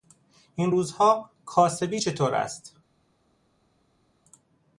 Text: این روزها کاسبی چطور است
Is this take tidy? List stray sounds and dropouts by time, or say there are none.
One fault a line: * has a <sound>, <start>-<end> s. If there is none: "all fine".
all fine